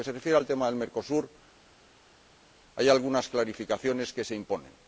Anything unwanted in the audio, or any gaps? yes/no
no